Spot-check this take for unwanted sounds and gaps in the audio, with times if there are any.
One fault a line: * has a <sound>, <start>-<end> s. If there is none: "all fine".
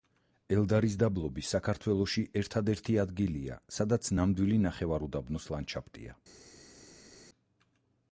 all fine